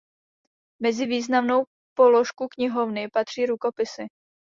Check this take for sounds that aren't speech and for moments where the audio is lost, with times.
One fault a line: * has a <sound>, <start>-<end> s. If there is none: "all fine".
all fine